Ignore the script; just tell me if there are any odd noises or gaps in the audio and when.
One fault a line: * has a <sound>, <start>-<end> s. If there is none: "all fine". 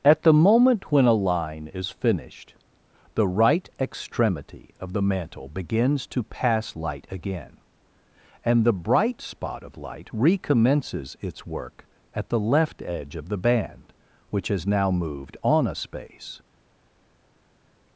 all fine